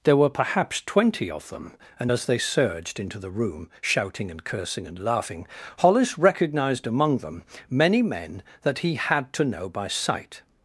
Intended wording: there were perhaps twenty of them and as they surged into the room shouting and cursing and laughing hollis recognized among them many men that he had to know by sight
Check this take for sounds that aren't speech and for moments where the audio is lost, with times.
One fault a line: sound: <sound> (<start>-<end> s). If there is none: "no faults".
no faults